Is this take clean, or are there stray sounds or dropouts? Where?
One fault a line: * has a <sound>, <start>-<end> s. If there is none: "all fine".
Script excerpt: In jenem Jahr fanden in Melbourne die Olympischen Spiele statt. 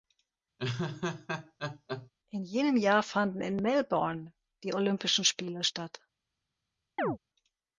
* has a laugh, 0.6-2.1 s
* has a chirp, 7.0-7.2 s